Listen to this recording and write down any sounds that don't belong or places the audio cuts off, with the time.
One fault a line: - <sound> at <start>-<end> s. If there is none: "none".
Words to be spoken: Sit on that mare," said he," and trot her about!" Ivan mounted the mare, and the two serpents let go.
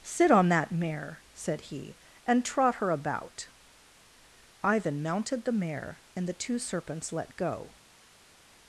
none